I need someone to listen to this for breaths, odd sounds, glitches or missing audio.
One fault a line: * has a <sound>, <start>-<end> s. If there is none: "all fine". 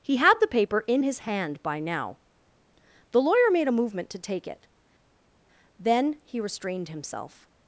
all fine